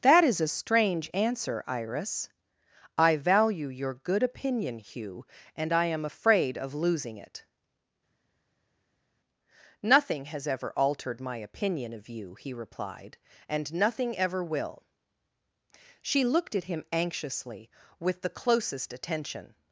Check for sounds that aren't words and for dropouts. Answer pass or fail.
pass